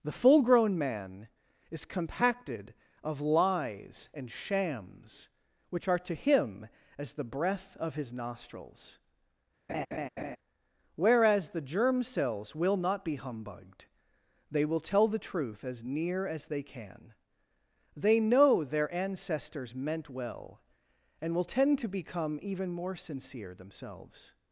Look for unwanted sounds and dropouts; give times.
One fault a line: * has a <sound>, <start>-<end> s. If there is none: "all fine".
* has a laugh, 9.7-10.4 s